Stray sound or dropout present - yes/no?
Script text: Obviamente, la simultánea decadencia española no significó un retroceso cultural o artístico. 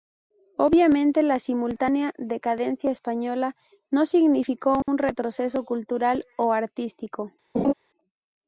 yes